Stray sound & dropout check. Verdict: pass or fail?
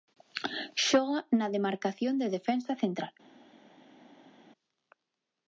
pass